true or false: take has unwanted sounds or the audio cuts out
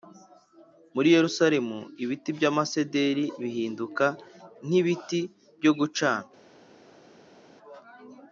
false